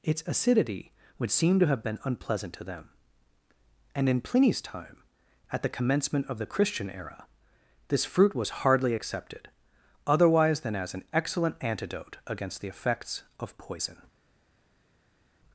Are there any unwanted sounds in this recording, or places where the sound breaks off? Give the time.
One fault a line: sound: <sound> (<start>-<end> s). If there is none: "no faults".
no faults